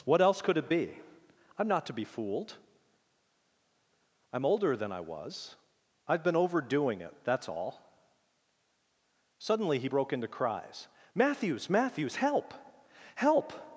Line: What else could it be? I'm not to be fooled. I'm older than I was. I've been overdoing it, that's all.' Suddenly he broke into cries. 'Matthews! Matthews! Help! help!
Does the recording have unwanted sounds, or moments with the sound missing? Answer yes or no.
no